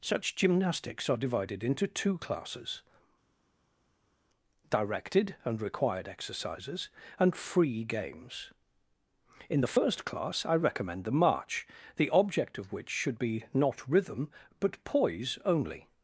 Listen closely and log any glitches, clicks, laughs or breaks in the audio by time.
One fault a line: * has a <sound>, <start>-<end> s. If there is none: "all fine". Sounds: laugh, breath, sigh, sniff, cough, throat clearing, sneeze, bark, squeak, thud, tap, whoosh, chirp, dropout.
all fine